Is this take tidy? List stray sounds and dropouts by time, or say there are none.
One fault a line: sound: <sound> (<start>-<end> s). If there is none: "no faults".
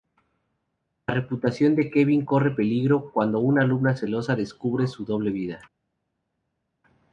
no faults